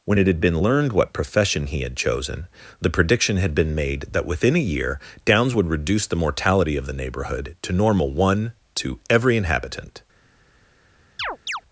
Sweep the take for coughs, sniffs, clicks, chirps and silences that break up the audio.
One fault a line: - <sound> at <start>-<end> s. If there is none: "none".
- chirp at 11.2-11.6 s